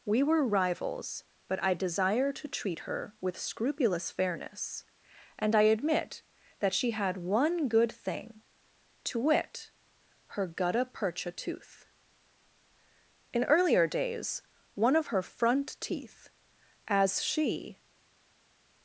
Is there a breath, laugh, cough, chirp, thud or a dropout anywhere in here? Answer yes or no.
no